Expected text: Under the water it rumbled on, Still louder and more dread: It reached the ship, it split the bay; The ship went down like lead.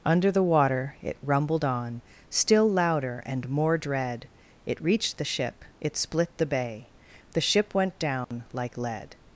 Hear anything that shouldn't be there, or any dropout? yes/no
yes